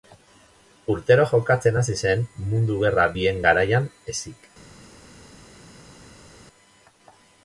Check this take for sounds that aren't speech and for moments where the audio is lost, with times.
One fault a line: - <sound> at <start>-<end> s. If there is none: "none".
none